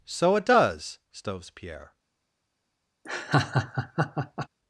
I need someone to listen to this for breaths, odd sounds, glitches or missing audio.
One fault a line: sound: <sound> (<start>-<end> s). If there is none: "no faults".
sound: laugh (3.0-4.5 s)